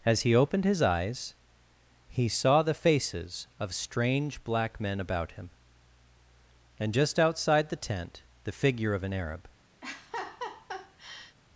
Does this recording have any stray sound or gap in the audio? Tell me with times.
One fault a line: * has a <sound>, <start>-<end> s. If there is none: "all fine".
* has a laugh, 9.8-11.4 s